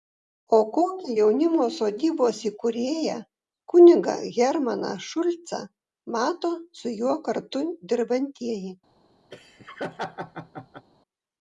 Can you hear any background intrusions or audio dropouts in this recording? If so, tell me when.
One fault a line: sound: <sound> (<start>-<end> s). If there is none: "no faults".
sound: laugh (9.3-10.9 s)